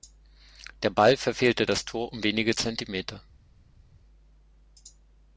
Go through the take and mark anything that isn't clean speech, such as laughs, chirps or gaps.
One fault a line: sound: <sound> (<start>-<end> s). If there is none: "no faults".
no faults